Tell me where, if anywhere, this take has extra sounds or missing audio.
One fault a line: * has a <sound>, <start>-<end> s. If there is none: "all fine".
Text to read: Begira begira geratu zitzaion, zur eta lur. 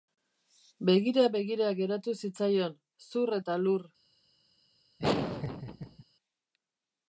* has a laugh, 5.0-6.0 s